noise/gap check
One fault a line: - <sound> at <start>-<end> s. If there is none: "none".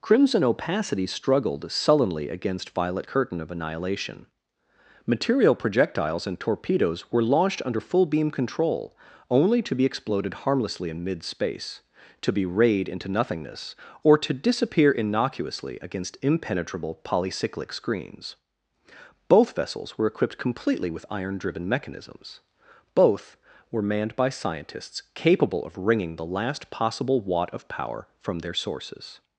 none